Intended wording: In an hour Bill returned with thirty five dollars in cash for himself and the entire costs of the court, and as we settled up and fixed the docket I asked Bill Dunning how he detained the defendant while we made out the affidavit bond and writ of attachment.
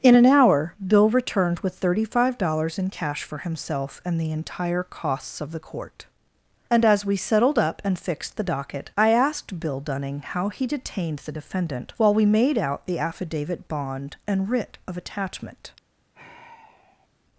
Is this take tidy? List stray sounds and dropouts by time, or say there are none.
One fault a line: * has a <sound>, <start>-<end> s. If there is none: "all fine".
* has a sigh, 16.1-17.1 s